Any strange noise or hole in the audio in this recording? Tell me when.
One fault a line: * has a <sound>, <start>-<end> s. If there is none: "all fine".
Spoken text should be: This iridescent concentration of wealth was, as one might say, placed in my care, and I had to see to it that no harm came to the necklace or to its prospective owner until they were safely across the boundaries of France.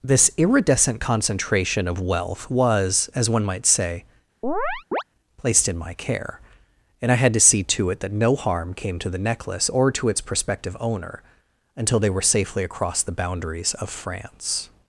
* has a chirp, 4.4-5.0 s